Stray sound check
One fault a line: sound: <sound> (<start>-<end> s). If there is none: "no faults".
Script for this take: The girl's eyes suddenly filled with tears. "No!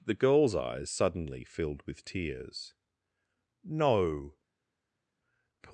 no faults